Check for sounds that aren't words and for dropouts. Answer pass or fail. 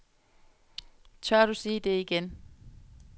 pass